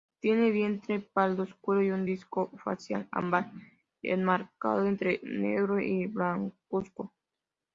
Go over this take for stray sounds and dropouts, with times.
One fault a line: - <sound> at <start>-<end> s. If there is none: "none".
none